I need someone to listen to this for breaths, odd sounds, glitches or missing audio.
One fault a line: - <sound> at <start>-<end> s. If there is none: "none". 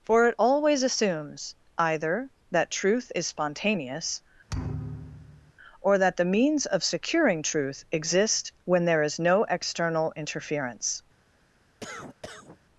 - thud at 4.5-5.5 s
- cough at 11.8-12.6 s